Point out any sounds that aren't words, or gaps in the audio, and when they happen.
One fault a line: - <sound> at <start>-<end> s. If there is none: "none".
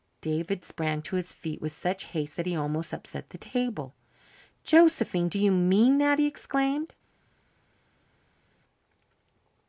none